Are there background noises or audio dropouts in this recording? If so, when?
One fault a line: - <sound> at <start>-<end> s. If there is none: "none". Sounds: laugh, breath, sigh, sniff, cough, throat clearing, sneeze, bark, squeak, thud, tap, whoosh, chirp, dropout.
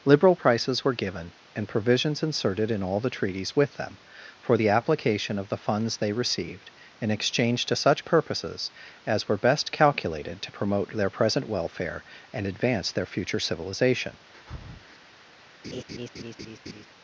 - breath at 14.3-15.0 s
- laugh at 15.6-16.9 s